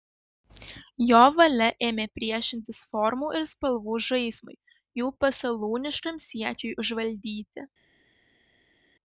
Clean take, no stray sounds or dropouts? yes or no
yes